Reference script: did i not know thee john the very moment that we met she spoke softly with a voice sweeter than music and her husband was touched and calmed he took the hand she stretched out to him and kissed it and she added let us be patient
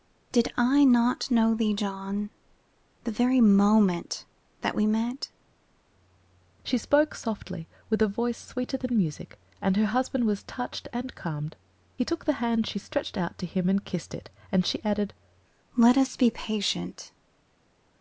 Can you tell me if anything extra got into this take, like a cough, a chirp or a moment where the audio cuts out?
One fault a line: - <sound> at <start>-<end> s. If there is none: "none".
none